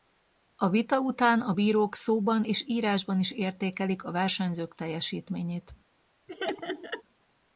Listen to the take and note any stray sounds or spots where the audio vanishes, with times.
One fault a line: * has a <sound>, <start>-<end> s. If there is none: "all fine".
* has a laugh, 6.3-7.0 s